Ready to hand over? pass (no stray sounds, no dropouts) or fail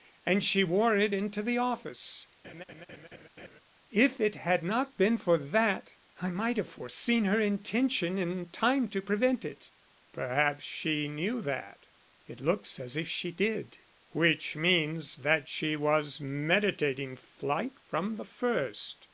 fail